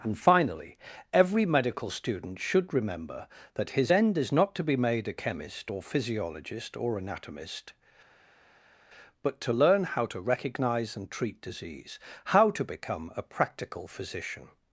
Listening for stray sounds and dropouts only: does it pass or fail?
pass